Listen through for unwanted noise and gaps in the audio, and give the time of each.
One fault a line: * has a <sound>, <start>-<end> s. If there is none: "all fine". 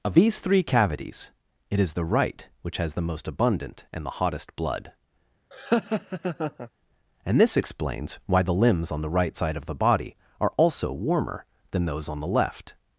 * has a laugh, 5.5-6.7 s